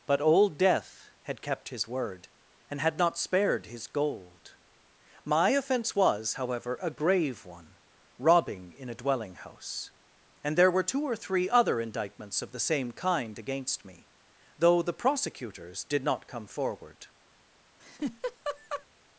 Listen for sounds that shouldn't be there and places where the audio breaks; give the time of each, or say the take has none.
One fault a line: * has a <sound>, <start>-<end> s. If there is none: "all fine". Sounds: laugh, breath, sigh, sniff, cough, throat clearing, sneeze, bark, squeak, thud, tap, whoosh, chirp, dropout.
* has a laugh, 17.8-18.9 s